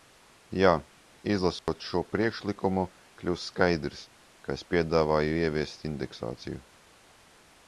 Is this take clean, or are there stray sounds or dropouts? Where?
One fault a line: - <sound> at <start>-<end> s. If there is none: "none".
- dropout at 1.6-1.7 s